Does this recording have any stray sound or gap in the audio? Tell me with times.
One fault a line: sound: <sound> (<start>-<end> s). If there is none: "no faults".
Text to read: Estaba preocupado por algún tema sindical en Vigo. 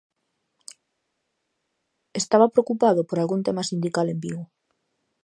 no faults